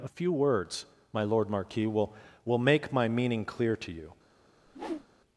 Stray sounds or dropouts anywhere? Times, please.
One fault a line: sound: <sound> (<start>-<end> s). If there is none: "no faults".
sound: whoosh (4.7-5.1 s)